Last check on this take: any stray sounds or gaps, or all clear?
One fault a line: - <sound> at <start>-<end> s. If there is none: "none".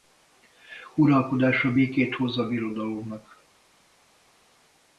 none